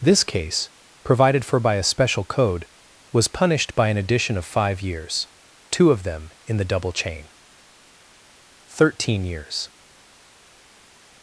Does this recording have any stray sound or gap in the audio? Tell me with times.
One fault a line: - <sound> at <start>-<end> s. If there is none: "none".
none